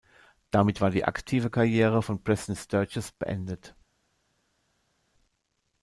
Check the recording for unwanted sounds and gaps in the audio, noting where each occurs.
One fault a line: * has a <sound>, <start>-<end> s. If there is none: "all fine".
all fine